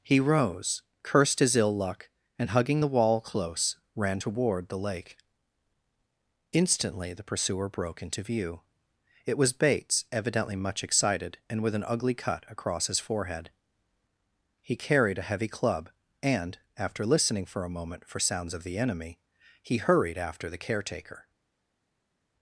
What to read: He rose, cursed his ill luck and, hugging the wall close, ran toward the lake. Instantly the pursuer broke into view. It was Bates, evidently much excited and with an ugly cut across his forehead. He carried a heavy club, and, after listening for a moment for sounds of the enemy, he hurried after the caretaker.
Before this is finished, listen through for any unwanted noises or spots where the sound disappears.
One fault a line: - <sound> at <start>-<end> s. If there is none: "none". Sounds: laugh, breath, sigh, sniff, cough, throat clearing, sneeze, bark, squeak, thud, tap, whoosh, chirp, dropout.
none